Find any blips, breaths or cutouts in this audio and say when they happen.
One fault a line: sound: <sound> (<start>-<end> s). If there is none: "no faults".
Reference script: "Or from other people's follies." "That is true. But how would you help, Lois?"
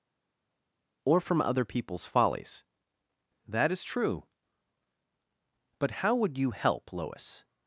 no faults